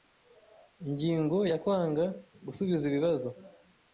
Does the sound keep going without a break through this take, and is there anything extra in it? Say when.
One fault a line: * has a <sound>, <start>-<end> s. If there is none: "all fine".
all fine